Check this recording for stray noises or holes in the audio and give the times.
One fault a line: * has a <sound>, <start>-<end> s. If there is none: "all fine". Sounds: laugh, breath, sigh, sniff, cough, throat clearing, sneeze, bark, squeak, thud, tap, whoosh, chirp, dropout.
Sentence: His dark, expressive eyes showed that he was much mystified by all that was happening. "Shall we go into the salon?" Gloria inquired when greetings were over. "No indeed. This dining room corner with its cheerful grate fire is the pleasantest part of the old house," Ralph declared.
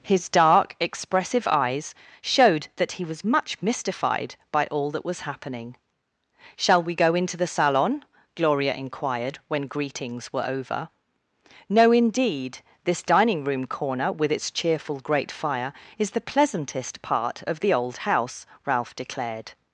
all fine